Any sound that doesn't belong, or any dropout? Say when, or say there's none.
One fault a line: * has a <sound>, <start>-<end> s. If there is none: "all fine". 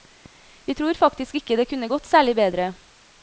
all fine